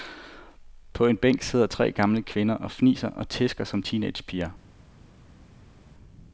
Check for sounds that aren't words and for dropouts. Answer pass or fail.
pass